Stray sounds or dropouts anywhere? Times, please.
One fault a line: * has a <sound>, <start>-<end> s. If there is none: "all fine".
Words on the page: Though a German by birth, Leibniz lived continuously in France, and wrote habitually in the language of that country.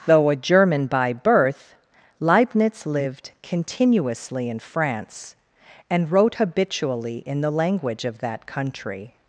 all fine